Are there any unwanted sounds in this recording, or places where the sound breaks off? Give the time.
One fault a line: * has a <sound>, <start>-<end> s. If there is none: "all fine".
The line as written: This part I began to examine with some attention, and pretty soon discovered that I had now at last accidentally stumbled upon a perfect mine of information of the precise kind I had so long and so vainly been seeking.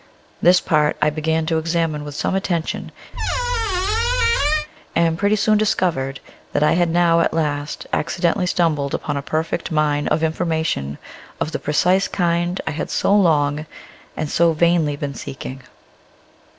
* has a squeak, 3.1-4.7 s